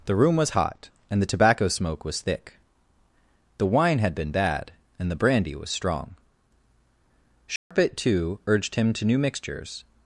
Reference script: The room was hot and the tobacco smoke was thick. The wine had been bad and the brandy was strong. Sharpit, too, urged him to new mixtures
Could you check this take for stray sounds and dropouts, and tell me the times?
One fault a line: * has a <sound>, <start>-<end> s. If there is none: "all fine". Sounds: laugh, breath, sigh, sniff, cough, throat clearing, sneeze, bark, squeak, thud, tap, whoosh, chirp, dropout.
* has a dropout, 7.6-7.7 s